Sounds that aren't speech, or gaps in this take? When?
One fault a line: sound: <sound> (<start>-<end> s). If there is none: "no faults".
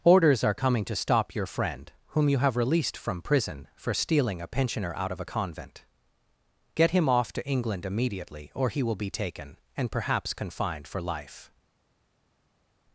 no faults